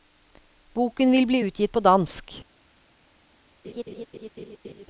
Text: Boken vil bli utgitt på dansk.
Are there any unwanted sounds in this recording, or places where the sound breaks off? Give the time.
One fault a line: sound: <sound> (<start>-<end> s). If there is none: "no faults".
sound: laugh (3.6-4.9 s)